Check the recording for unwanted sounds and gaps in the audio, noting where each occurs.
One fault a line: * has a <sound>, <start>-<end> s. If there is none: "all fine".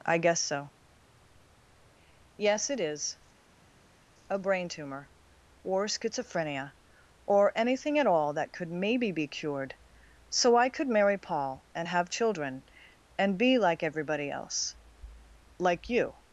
all fine